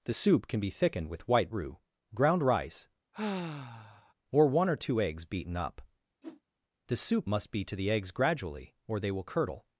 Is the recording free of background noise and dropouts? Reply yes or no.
no